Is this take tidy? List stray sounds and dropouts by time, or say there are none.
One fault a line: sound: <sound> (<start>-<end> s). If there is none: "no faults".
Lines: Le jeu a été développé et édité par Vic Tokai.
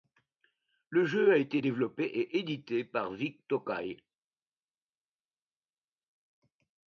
no faults